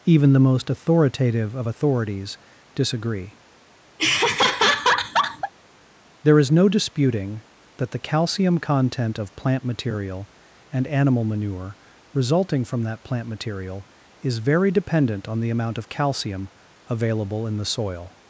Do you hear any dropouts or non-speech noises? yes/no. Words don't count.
yes